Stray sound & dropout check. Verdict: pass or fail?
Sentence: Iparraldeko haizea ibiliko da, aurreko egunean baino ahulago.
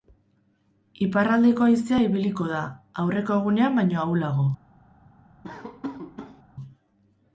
fail